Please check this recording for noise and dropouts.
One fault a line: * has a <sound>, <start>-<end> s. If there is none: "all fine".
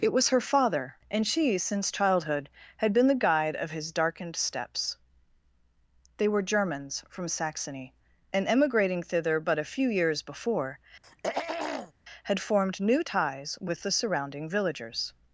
* has a throat clearing, 11.0-11.9 s